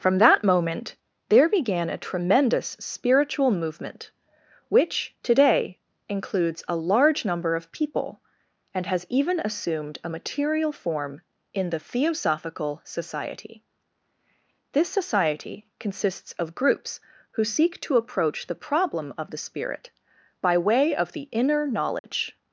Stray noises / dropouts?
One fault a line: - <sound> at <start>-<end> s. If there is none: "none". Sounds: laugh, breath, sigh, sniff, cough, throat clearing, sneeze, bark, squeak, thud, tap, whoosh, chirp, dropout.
- dropout at 22.0-22.0 s